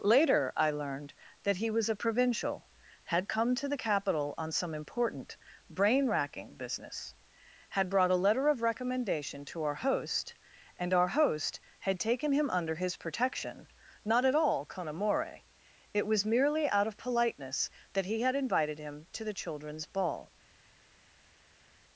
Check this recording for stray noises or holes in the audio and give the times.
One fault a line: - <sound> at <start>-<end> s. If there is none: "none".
none